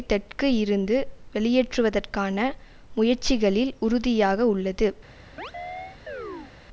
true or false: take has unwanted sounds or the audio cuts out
true